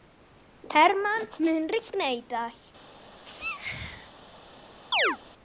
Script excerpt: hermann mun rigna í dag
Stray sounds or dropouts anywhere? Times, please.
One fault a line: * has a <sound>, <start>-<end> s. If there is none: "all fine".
* has a sneeze, 3.2-4.1 s
* has a chirp, 4.9-5.2 s